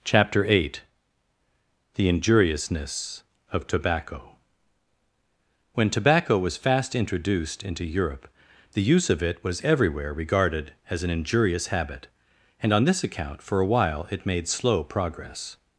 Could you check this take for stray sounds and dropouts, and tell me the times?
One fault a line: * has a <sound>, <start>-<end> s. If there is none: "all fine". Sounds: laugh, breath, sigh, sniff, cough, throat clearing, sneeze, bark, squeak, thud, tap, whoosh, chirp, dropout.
all fine